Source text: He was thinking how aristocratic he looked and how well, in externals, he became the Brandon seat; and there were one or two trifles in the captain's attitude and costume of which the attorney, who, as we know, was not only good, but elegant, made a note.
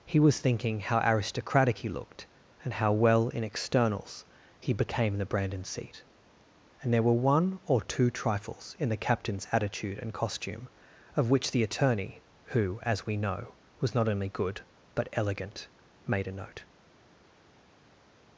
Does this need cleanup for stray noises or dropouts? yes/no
no